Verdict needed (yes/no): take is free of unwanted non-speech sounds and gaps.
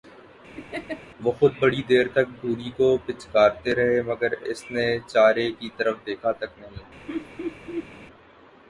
no